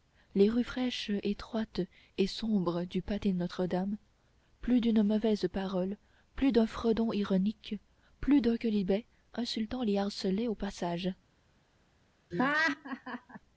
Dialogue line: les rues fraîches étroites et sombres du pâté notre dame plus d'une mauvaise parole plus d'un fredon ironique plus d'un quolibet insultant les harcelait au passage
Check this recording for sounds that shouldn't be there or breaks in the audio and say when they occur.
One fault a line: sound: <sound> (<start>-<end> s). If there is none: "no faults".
sound: laugh (12.3-13.4 s)